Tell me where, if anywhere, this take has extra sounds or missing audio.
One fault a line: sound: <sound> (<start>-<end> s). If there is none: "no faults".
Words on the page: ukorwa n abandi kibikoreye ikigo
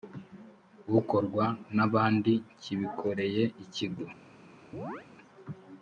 sound: chirp (4.7-5.1 s)